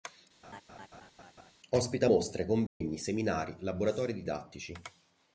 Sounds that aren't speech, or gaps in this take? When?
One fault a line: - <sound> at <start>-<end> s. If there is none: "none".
- laugh at 0.4-1.5 s
- dropout at 2.7-2.8 s